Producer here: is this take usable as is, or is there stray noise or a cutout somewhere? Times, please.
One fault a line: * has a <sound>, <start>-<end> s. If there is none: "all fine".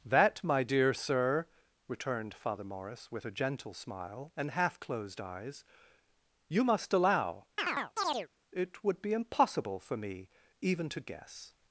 * has a chirp, 7.6-8.3 s